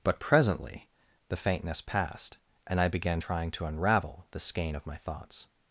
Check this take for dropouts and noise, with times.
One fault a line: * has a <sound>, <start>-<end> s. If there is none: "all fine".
all fine